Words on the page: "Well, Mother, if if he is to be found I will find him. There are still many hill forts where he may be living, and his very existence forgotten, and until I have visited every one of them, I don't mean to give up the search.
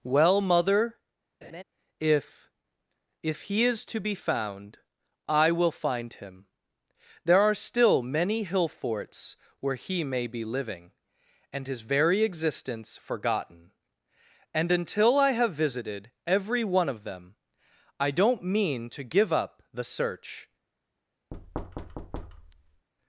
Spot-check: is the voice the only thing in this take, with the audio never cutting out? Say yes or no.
no